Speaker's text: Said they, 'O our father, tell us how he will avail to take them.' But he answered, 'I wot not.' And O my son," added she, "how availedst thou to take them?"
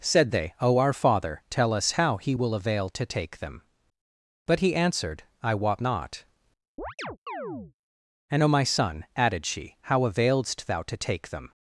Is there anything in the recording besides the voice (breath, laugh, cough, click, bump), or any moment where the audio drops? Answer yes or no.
yes